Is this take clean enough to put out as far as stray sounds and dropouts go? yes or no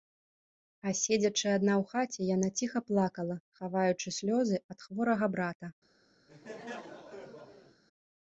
no